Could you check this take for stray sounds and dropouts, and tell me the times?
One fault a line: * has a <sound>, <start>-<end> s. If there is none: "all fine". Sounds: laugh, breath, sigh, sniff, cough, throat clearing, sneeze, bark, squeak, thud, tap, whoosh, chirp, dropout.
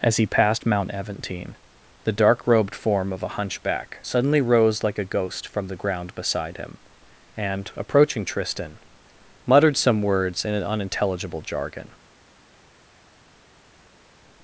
all fine